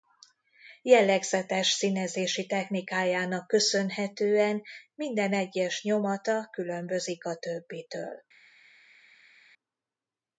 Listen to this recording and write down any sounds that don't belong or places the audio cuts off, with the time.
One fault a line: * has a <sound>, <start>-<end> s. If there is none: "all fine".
all fine